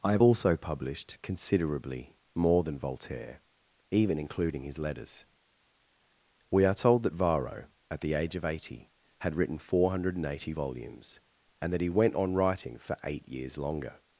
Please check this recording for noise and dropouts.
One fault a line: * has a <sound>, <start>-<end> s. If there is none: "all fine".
all fine